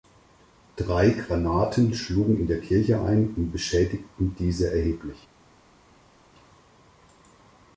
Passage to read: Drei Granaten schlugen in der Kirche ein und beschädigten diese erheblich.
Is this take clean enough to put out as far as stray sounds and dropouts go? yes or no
yes